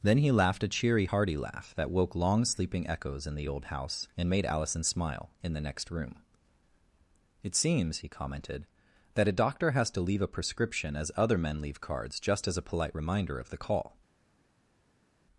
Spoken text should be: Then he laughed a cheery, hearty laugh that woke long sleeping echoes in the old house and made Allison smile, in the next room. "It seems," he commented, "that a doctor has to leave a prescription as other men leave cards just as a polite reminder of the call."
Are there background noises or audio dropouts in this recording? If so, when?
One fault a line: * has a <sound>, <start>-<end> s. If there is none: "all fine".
all fine